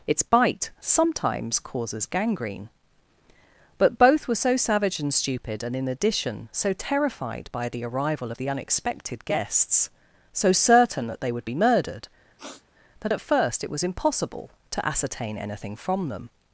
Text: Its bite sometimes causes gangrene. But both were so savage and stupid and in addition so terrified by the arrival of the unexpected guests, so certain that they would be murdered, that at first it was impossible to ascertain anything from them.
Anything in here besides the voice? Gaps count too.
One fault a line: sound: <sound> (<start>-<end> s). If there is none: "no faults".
sound: sniff (12.4-12.6 s)